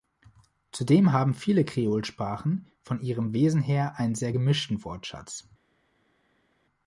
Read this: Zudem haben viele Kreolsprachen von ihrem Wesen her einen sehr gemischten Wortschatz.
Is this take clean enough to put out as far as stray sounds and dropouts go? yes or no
yes